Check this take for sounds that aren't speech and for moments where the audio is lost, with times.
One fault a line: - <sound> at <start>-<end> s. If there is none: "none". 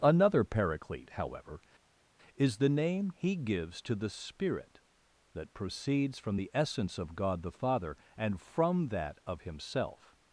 none